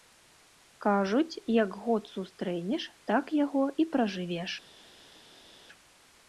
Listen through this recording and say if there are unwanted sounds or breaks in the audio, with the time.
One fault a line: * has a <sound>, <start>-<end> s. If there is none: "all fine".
all fine